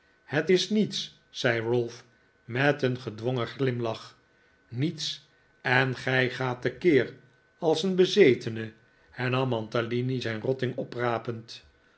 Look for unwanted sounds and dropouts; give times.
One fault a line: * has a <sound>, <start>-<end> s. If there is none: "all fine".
all fine